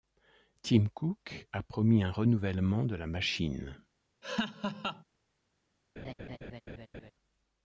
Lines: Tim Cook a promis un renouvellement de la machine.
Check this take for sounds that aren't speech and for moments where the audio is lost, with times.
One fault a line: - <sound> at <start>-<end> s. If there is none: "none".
- laugh at 4.2-5.0 s
- laugh at 6.0-7.1 s